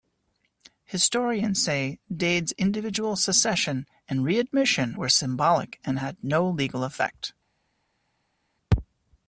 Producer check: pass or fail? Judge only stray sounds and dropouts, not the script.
pass